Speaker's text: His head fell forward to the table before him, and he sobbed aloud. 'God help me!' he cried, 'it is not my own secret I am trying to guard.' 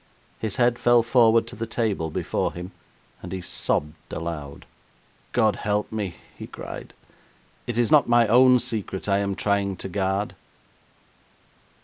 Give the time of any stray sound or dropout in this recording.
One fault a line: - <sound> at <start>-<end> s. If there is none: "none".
none